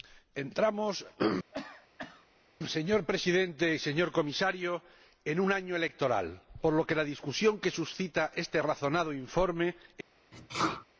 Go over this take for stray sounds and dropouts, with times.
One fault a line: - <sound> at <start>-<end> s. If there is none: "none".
- cough at 1.5-2.3 s
- sneeze at 10.3-10.9 s